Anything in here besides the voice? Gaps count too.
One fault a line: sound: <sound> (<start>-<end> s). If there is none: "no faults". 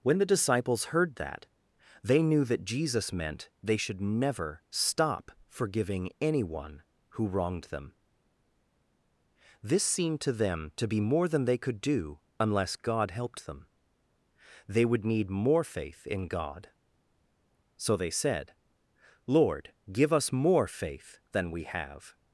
no faults